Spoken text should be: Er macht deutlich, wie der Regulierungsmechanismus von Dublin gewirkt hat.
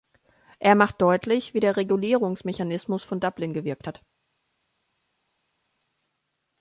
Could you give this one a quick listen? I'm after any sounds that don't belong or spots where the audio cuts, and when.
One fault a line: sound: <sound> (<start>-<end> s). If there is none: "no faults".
no faults